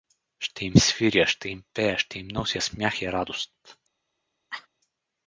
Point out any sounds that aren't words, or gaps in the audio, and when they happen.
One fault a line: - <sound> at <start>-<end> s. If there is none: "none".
- cough at 4.5-4.7 s